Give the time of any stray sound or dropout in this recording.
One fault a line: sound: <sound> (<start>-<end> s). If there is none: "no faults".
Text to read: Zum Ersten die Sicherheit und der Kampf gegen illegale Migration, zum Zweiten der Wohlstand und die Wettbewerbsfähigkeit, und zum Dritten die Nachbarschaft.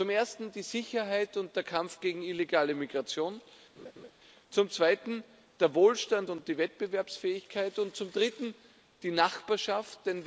sound: laugh (3.8-4.1 s)